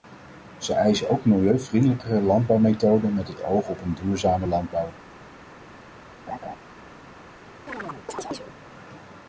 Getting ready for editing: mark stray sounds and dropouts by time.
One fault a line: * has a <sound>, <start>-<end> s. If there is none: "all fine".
* has a laugh, 6.3-6.6 s
* has a chirp, 7.7-8.6 s